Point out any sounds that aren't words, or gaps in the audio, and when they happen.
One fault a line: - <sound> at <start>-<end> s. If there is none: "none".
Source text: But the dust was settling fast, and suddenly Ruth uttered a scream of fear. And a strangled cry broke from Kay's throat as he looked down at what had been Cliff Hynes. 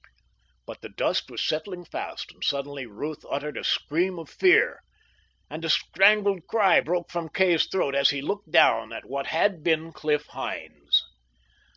none